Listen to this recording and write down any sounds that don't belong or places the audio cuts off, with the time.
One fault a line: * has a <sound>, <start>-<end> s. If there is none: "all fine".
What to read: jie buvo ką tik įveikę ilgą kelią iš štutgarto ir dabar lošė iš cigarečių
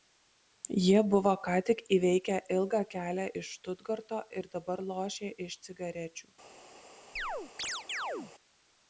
* has a chirp, 7.2-8.3 s